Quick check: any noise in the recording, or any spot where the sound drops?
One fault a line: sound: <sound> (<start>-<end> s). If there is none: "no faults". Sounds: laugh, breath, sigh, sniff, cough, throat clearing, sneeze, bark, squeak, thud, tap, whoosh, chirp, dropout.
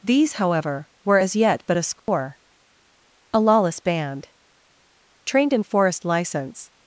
sound: dropout (2.0-2.1 s)